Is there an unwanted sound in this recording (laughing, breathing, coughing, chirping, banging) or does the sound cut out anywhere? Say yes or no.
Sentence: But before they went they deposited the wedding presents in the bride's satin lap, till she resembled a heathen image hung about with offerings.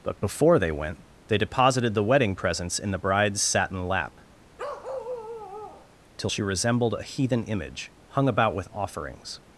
yes